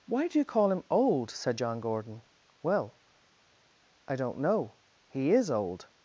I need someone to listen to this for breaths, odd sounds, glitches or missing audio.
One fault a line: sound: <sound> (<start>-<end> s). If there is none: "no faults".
no faults